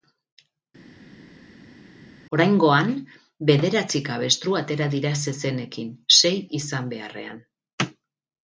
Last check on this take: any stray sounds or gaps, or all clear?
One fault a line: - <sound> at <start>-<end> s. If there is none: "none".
none